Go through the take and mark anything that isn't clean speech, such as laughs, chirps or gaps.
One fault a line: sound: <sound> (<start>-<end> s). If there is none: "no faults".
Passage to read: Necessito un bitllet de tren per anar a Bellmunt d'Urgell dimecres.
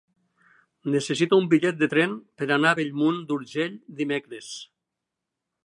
no faults